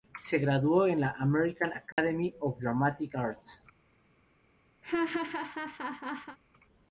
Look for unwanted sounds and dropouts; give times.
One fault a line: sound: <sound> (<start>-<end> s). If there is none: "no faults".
sound: dropout (1.9-2.0 s)
sound: laugh (4.8-6.4 s)